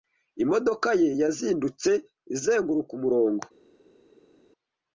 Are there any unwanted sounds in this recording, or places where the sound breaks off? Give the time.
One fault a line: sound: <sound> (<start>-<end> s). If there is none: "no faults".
no faults